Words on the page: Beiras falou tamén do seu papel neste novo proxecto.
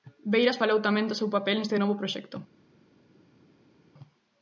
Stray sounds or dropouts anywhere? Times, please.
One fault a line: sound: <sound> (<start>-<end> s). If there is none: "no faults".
no faults